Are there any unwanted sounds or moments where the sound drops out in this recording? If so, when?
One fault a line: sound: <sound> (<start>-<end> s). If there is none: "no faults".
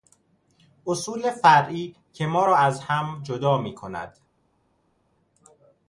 no faults